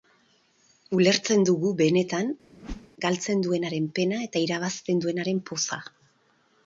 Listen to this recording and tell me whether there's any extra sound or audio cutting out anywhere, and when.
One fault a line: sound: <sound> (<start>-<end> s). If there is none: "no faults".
sound: whoosh (2.5-2.9 s)